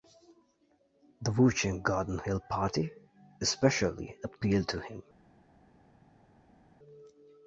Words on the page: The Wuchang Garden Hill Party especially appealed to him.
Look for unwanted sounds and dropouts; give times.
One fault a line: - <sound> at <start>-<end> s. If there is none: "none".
none